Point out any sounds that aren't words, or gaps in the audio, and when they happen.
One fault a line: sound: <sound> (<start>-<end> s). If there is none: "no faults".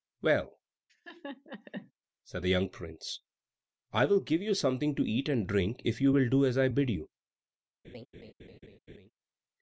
sound: laugh (0.9-1.9 s)
sound: laugh (7.8-9.1 s)